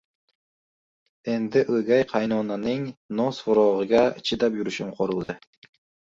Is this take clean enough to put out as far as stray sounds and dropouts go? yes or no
no